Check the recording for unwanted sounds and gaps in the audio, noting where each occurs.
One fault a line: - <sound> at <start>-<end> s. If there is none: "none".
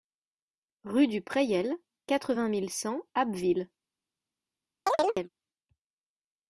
- chirp at 4.9-5.3 s